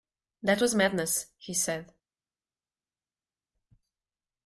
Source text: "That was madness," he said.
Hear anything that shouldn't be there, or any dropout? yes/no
no